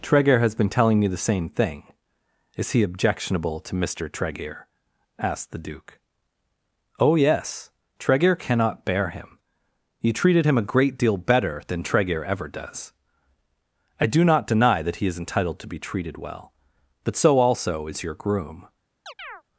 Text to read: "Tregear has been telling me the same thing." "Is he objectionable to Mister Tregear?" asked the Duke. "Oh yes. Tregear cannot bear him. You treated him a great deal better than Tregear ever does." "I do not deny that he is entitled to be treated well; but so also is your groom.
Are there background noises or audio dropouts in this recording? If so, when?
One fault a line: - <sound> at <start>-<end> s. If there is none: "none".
- chirp at 19.1-19.4 s